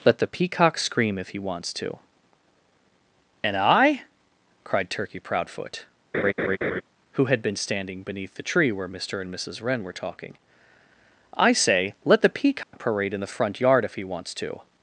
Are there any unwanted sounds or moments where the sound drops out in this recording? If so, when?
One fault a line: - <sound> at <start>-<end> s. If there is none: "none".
- laugh at 6.1-6.8 s
- dropout at 12.6-12.7 s